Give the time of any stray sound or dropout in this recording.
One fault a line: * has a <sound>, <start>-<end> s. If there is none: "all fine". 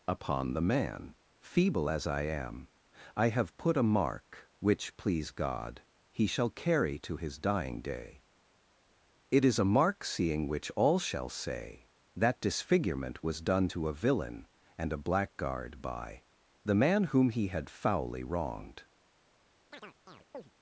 * has a chirp, 19.7-20.5 s